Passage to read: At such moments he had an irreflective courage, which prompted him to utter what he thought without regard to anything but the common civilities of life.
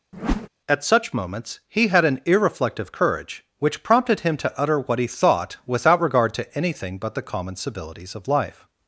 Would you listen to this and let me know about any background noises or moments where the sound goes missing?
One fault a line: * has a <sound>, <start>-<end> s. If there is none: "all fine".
* has a whoosh, 0.1-0.5 s